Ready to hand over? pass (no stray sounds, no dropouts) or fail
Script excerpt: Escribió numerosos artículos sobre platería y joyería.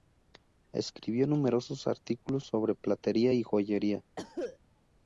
fail